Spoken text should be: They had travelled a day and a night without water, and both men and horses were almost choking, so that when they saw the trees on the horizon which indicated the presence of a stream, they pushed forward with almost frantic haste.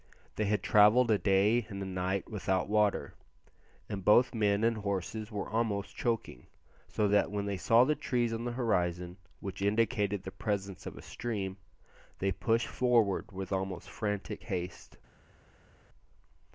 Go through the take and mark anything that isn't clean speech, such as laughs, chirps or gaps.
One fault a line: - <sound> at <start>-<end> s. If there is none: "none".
none